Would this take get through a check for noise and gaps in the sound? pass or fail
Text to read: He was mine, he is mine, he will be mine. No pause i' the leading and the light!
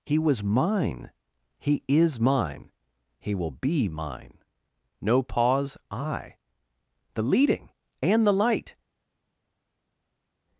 pass